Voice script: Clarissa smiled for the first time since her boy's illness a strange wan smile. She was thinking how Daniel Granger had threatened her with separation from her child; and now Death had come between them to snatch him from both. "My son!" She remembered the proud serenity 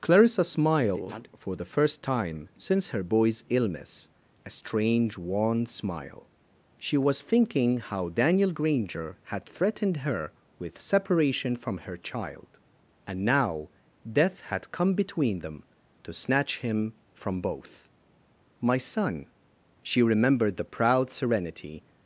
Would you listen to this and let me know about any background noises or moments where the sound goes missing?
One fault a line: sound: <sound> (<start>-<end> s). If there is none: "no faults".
no faults